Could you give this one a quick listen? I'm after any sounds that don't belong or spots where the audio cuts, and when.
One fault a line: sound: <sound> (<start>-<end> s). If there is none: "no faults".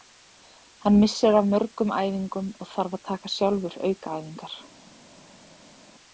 no faults